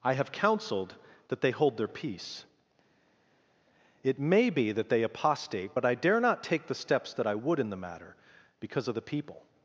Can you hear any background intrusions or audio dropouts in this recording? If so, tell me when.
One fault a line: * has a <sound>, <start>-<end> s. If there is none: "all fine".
all fine